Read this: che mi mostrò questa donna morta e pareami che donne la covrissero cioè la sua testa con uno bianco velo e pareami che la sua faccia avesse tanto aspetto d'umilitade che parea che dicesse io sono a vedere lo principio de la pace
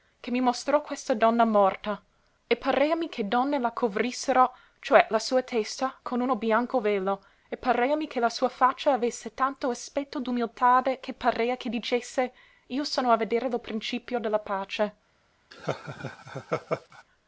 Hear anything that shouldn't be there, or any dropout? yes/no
yes